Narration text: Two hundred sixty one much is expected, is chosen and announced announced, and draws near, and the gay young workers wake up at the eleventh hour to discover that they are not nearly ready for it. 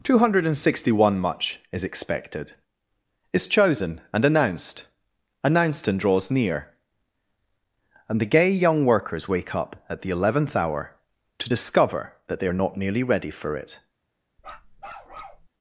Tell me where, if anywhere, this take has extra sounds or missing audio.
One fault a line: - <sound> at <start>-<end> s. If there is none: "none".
- bark at 14.4-15.5 s